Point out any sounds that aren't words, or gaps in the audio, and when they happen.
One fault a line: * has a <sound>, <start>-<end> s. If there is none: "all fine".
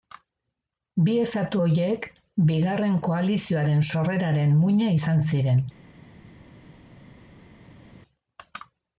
all fine